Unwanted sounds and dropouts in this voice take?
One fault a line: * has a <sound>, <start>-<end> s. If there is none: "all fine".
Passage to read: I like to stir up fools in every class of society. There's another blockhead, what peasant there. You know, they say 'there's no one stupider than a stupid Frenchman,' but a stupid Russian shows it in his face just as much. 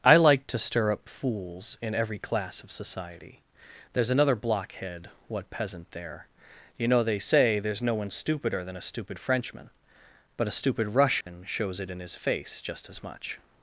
* has a dropout, 11.2-11.3 s